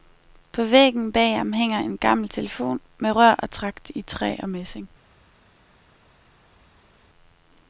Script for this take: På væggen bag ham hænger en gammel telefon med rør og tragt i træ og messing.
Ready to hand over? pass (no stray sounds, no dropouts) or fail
pass